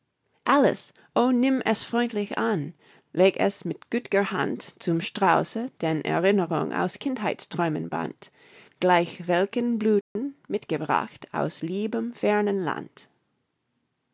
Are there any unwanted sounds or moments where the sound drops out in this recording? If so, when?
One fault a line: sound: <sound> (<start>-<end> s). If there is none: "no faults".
sound: dropout (10.0-10.2 s)